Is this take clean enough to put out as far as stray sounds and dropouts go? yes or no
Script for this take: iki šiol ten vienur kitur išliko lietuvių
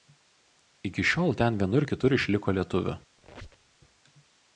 no